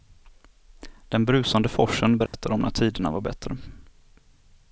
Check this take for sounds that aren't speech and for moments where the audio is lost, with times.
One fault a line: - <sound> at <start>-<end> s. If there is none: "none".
- dropout at 2.3-2.3 s